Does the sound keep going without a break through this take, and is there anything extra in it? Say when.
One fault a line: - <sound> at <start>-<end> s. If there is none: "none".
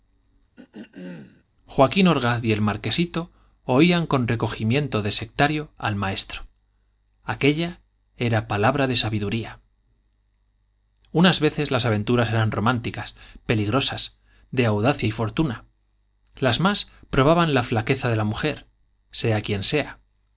- throat clearing at 0.6-1.4 s